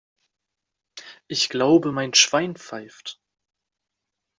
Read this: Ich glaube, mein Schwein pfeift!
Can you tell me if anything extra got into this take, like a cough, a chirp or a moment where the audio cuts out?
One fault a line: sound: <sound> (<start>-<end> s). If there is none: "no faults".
no faults